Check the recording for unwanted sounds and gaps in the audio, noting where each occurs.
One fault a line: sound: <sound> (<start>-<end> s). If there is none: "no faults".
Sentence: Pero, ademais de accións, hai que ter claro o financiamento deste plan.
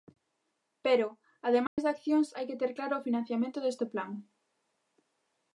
sound: dropout (1.7-1.8 s)